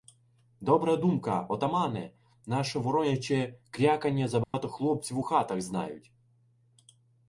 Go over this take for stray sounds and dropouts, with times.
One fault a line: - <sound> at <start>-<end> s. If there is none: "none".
- dropout at 4.4-4.5 s